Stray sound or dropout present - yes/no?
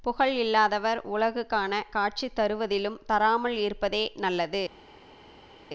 no